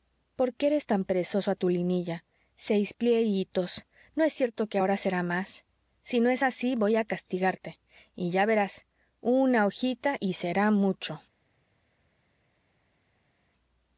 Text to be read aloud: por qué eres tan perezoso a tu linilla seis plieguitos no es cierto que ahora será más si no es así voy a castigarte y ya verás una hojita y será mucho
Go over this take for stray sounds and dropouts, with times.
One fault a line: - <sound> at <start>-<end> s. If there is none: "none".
none